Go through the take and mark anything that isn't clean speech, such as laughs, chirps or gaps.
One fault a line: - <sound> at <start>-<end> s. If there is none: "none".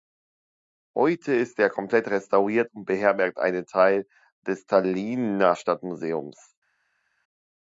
none